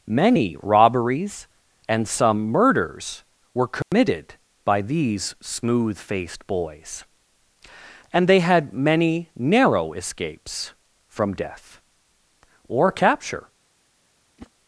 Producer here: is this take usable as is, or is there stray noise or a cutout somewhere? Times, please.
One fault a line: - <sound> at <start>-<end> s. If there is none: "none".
- dropout at 3.8-3.9 s
- whoosh at 14.4-14.5 s